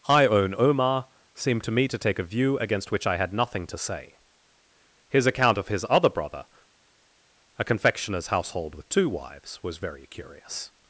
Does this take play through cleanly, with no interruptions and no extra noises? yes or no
yes